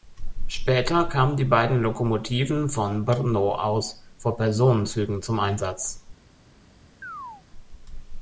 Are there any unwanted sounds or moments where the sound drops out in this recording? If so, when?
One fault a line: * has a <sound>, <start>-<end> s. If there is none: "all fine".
* has a chirp, 7.0-7.4 s